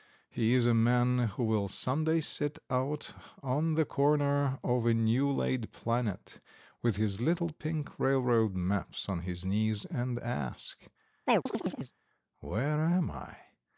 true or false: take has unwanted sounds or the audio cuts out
true